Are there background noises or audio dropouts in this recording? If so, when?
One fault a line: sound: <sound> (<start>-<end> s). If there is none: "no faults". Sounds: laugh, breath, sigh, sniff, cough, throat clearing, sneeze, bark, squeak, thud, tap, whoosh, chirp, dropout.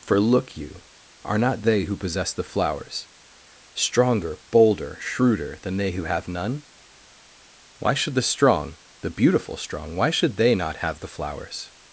no faults